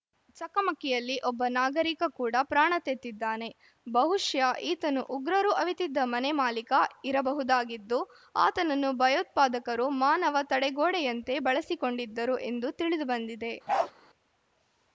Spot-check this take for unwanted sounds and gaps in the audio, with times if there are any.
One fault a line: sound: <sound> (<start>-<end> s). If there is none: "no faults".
sound: bark (13.7-13.9 s)